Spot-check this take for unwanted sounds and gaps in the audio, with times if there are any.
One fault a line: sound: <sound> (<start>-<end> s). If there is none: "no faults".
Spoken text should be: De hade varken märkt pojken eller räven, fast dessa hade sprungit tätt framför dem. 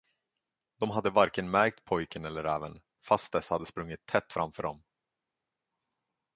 no faults